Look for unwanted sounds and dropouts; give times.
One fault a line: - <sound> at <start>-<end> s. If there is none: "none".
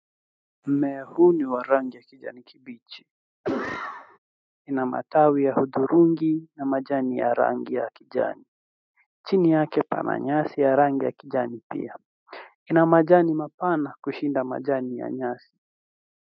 - cough at 3.4-4.2 s